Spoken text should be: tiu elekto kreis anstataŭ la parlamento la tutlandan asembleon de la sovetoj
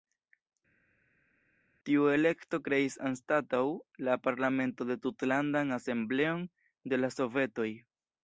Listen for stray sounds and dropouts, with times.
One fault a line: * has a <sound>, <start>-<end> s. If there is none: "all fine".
all fine